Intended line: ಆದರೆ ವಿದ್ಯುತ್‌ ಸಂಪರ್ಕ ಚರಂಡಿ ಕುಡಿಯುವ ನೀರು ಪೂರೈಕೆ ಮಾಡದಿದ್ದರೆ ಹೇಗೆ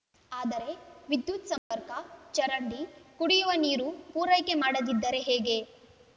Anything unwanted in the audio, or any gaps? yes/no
yes